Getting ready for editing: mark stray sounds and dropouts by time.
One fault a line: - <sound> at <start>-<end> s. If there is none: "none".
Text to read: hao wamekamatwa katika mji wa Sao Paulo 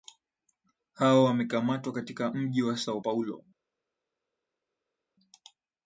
none